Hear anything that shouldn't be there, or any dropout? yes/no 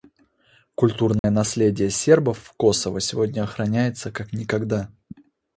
yes